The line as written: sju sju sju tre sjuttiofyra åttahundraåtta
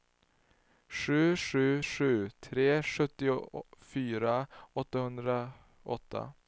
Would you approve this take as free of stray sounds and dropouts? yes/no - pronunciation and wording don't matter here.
yes